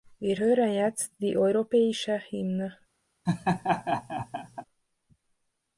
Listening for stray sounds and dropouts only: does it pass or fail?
fail